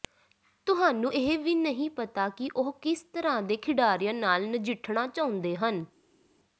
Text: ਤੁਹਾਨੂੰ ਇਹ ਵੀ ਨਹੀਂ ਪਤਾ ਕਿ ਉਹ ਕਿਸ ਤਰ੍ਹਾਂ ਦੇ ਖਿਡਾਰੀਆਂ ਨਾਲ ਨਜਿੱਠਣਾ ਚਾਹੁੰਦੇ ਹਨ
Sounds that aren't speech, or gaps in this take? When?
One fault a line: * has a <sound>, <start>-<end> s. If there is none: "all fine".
all fine